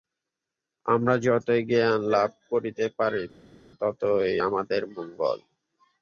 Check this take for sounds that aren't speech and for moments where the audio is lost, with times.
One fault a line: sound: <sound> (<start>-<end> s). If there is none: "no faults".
no faults